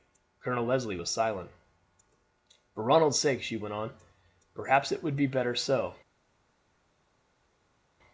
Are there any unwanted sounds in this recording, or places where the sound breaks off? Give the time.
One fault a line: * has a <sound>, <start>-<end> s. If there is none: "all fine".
all fine